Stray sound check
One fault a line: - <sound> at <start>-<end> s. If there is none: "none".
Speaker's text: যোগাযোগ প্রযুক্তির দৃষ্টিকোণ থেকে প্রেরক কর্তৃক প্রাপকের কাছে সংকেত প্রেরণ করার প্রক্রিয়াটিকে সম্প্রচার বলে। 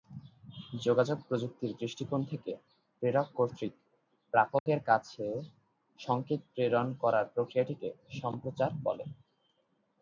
- dropout at 4.6-4.7 s